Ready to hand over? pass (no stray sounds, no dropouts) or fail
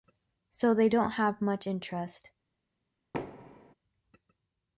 fail